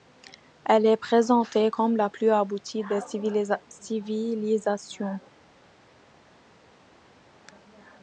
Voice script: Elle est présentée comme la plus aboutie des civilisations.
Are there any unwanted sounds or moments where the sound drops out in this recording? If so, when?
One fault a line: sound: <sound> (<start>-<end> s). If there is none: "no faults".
no faults